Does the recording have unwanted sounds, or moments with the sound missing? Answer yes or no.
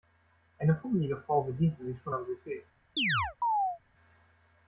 yes